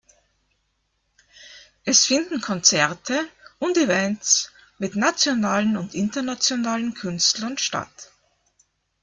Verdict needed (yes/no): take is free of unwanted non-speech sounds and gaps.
yes